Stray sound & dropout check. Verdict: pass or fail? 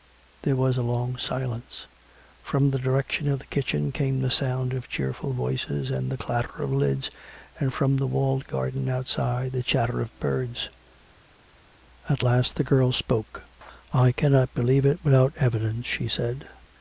pass